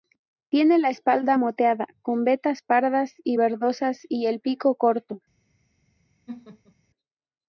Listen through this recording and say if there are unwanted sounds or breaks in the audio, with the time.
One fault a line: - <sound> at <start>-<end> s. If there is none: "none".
- laugh at 6.3-6.7 s